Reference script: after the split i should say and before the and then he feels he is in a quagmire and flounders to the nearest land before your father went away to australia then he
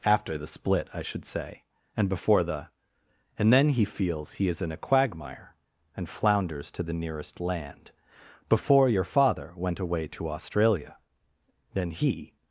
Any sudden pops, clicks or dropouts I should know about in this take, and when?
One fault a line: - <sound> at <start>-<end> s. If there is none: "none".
none